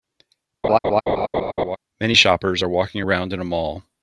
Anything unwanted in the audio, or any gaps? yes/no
yes